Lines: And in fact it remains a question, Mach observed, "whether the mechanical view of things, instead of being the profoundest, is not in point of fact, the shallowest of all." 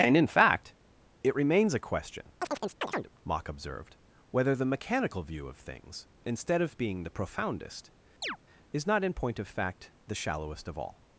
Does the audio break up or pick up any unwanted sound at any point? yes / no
yes